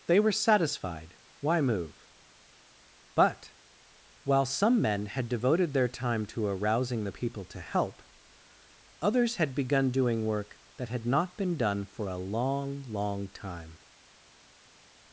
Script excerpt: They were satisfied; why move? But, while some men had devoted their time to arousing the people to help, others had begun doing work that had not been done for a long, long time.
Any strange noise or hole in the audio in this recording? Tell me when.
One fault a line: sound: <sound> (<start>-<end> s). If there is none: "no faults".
no faults